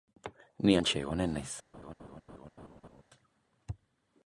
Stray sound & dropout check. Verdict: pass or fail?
fail